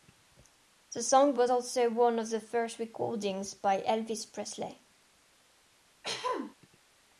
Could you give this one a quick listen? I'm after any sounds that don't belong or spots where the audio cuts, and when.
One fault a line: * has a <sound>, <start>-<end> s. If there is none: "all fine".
* has a throat clearing, 6.0-6.6 s